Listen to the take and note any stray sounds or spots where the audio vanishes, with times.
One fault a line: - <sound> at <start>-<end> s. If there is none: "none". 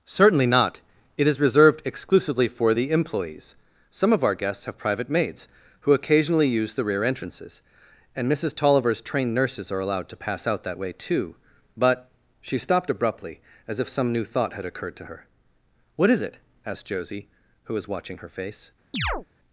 - chirp at 18.9-19.3 s